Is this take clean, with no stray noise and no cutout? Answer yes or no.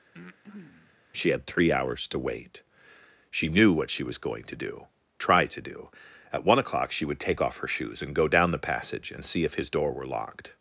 no